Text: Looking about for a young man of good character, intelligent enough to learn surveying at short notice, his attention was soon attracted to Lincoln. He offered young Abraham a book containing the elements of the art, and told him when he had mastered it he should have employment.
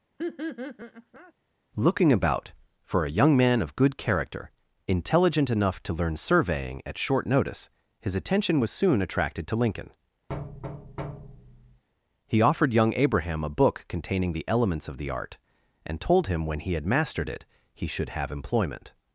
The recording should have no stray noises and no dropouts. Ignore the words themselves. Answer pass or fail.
fail